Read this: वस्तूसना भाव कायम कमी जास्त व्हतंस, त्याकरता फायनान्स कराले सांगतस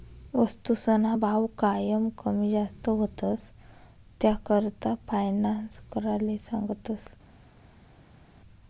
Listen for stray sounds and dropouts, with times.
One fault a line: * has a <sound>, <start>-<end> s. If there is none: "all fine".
all fine